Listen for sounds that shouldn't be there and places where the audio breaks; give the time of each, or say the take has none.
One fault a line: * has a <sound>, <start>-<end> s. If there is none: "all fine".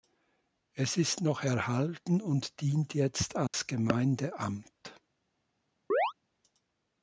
* has a dropout, 3.5-3.5 s
* has a chirp, 5.9-6.1 s